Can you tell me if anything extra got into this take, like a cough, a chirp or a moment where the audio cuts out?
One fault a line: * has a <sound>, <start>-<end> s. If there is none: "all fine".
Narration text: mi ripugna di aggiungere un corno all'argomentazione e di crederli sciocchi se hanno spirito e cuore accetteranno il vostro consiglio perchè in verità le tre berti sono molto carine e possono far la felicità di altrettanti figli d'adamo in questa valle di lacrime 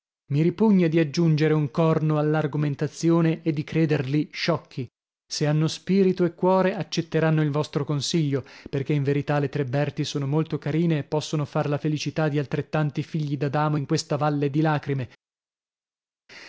all fine